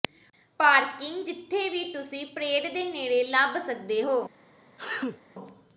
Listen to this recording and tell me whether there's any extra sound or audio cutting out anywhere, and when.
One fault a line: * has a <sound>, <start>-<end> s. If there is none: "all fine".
* has a sneeze, 4.8-5.2 s